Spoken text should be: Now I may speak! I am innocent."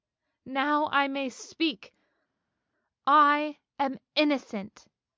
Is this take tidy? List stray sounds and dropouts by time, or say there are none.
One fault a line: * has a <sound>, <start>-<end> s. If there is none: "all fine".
all fine